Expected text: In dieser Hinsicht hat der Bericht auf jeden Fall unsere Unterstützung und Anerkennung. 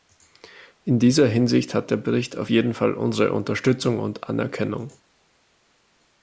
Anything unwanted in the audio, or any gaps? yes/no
no